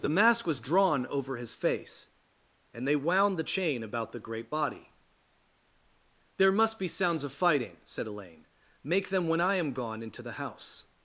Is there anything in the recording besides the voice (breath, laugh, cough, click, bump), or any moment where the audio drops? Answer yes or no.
no